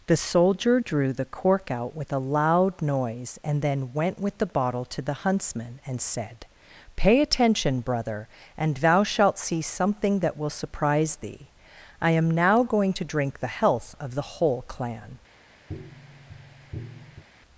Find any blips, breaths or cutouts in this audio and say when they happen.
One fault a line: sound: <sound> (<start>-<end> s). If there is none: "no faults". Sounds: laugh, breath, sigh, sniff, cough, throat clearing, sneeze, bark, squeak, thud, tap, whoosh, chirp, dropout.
sound: tap (15.7-17.2 s)